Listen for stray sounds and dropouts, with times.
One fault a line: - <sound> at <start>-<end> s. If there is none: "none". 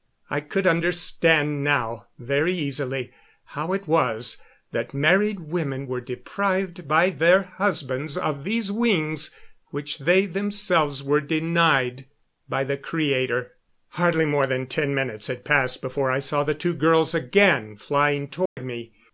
- dropout at 18.5-18.6 s